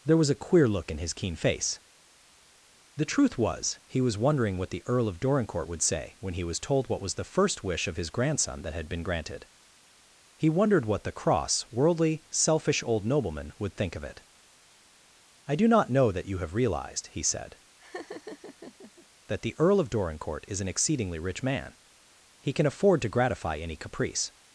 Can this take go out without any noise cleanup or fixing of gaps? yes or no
no